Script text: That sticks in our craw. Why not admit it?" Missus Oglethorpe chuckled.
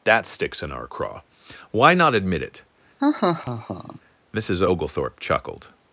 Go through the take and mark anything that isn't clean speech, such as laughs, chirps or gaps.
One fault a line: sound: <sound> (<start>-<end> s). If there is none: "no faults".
sound: laugh (3.0-4.0 s)